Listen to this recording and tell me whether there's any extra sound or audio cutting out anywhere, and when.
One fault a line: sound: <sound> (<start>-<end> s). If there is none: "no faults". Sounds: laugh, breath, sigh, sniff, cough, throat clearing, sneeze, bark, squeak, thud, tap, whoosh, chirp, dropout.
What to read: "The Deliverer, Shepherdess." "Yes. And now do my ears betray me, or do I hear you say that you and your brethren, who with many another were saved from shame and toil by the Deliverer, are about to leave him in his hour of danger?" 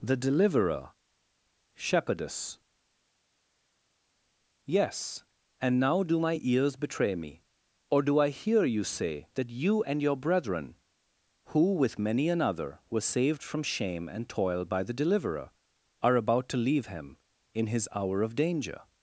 no faults